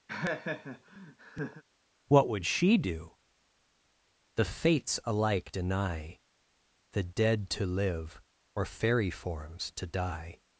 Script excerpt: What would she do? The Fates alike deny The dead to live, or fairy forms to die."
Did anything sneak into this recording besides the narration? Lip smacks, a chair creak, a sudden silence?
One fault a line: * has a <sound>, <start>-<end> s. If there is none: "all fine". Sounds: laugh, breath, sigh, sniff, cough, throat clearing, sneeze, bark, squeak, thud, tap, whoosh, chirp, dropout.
* has a laugh, 0.1-1.6 s